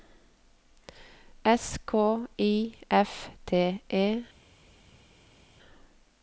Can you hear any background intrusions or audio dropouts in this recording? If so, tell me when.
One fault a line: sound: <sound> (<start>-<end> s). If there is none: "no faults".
no faults